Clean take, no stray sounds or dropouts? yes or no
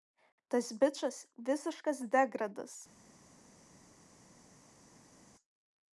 yes